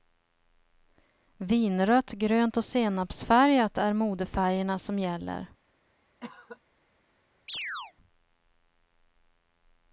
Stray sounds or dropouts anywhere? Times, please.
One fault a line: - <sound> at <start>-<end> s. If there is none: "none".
- cough at 6.2-6.6 s
- chirp at 7.5-7.9 s